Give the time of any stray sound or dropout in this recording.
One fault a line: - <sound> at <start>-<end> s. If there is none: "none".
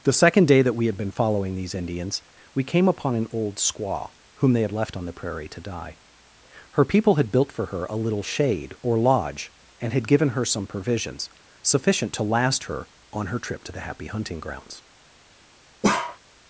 - bark at 15.8-16.2 s